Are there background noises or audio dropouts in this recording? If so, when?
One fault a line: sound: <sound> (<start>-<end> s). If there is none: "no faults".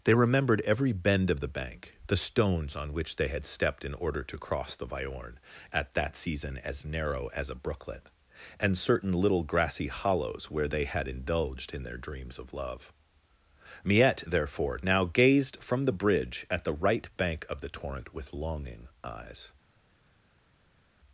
no faults